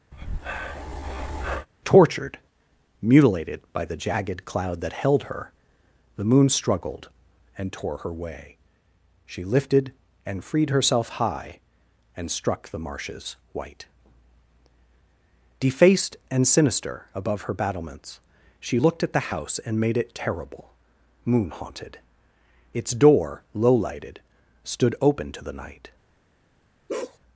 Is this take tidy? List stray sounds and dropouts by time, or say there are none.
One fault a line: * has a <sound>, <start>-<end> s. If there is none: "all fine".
* has a breath, 0.1-1.7 s
* has a bark, 26.9-27.2 s